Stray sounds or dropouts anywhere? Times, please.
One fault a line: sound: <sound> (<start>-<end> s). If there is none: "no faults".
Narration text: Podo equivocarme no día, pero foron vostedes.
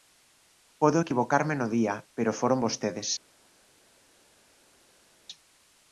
no faults